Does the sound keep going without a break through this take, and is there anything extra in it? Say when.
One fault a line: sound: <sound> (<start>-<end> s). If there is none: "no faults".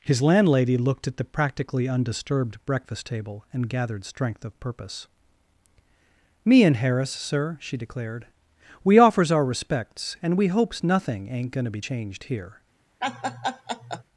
sound: laugh (13.0-14.0 s)